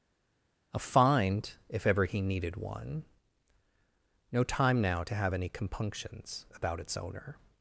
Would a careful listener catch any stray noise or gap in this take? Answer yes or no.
no